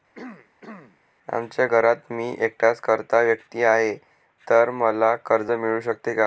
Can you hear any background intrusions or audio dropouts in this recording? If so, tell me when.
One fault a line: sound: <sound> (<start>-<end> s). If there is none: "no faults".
sound: throat clearing (0.1-1.0 s)